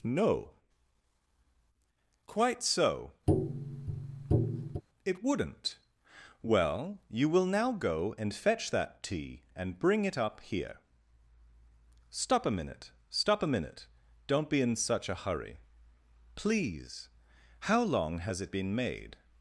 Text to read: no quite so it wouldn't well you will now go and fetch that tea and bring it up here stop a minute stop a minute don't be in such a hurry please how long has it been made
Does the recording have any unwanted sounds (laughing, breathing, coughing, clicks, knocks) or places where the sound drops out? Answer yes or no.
yes